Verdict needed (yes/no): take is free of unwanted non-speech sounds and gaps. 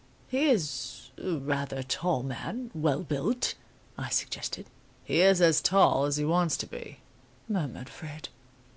yes